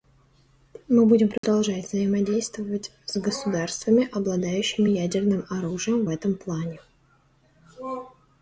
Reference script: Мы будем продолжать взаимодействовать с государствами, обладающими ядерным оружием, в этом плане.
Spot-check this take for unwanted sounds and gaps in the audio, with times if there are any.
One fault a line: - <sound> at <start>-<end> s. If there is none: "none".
- dropout at 1.4-1.4 s